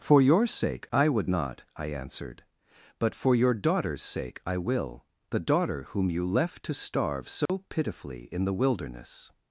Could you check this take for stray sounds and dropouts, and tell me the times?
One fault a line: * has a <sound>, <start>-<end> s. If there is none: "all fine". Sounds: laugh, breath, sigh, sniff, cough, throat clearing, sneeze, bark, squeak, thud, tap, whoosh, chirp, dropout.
* has a dropout, 7.5-7.5 s